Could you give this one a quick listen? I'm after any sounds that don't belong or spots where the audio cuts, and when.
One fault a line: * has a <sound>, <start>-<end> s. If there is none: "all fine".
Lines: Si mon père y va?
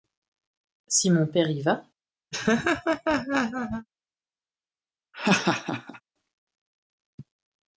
* has a laugh, 2.3-3.9 s
* has a laugh, 5.1-6.0 s